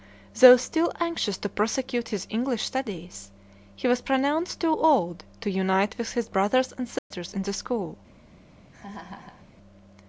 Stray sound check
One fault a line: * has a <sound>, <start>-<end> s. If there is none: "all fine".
* has a dropout, 7.0-7.1 s
* has a laugh, 8.7-9.5 s